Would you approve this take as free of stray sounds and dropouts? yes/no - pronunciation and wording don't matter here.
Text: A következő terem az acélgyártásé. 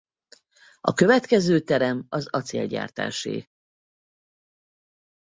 yes